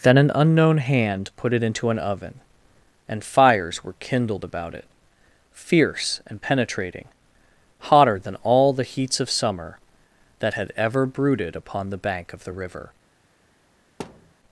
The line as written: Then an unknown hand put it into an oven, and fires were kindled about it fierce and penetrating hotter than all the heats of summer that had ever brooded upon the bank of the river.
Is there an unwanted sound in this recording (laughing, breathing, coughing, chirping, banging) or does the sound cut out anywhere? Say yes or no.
yes